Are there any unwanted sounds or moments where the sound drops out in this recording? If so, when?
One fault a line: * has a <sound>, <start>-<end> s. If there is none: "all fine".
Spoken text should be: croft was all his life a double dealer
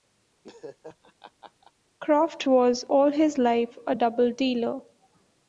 * has a laugh, 0.4-1.7 s